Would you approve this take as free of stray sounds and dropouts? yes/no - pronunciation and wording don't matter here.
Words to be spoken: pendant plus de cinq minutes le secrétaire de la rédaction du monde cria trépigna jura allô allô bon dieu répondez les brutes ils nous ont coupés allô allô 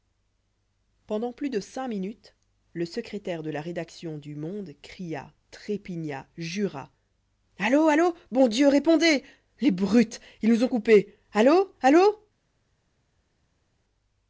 yes